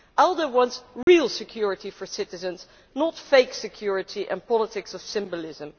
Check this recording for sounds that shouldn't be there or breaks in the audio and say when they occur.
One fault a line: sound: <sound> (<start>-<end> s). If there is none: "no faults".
sound: dropout (1.0-1.1 s)